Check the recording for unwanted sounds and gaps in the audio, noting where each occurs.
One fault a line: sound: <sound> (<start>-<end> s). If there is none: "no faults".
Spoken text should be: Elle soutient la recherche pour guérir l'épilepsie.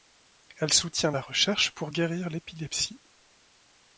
no faults